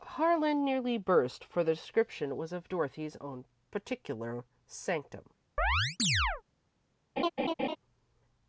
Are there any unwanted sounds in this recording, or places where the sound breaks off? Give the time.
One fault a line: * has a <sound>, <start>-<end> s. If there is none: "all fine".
* has a chirp, 5.6-6.4 s
* has a laugh, 7.2-7.8 s